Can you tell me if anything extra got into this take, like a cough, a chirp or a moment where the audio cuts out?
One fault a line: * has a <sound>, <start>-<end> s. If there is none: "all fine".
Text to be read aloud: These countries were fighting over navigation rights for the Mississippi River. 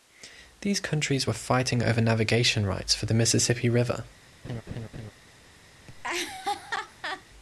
* has a laugh, 4.4-5.1 s
* has a laugh, 5.9-7.2 s